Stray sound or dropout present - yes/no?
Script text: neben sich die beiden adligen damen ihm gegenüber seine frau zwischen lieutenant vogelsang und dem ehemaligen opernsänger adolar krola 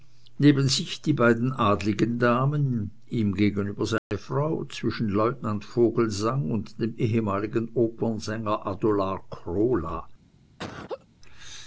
yes